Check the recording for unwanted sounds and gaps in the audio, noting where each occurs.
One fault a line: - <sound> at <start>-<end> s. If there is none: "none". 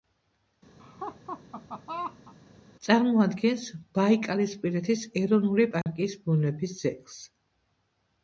- laugh at 0.8-2.3 s
- dropout at 5.8-5.9 s